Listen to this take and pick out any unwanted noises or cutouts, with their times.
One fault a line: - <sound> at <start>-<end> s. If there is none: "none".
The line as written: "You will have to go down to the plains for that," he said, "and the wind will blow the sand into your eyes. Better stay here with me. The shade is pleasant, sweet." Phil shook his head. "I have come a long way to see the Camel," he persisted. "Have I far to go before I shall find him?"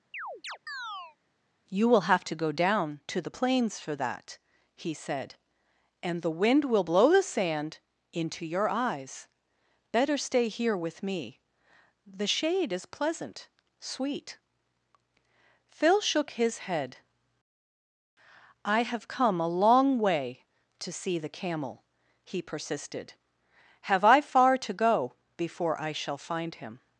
- chirp at 0.1-1.2 s